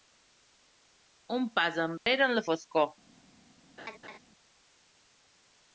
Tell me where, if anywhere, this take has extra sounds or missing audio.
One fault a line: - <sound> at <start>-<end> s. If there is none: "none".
- dropout at 2.0-2.1 s
- laugh at 3.8-4.2 s